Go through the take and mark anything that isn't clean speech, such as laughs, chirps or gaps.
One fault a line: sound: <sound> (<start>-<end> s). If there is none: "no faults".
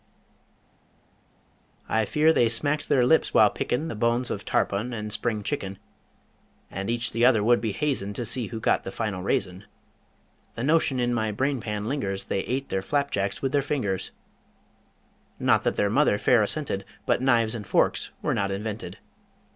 no faults